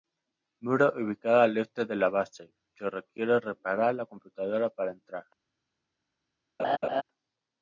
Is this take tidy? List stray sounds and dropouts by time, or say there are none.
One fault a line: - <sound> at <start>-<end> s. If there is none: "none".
- laugh at 6.6-7.0 s